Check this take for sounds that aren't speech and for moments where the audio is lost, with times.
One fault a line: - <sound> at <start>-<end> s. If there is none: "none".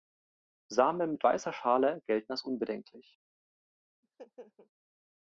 - laugh at 4.0-4.7 s